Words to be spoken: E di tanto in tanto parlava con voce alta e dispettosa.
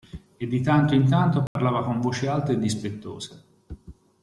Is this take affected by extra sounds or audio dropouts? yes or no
yes